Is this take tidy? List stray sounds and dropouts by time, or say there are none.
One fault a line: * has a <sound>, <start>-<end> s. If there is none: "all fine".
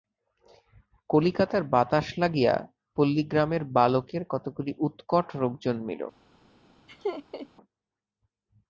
* has a laugh, 6.9-7.5 s